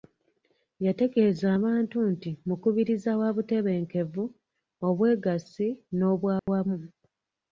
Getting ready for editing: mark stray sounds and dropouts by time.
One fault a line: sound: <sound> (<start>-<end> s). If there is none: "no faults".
sound: dropout (6.4-6.5 s)